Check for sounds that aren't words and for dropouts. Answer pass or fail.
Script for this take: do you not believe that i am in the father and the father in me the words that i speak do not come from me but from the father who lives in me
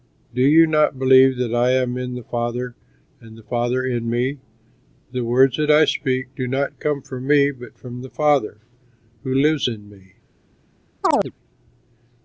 fail